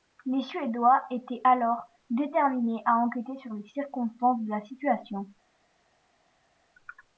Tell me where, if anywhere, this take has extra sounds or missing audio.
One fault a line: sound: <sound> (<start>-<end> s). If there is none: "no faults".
no faults